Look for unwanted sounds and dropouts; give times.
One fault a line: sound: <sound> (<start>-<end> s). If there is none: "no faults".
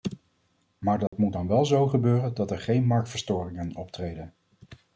sound: dropout (1.1-1.1 s)